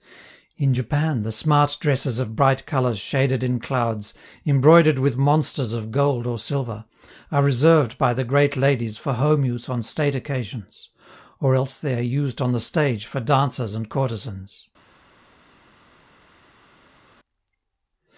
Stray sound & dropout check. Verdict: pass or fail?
pass